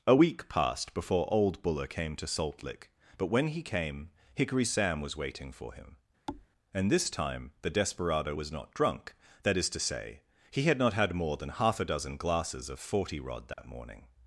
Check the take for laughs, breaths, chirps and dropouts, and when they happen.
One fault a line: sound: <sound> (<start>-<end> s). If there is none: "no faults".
sound: thud (6.3-6.5 s)
sound: dropout (13.5-13.6 s)